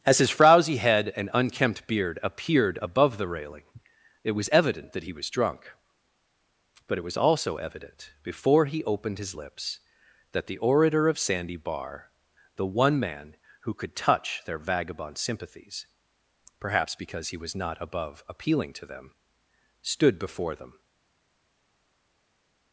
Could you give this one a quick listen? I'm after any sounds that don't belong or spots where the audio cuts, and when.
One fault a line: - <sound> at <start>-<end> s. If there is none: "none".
none